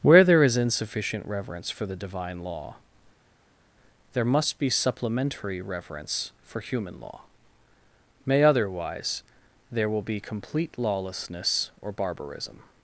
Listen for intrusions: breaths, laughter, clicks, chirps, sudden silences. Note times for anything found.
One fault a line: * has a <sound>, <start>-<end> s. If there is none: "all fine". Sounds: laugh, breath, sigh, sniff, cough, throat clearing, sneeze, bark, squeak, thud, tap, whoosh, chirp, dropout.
all fine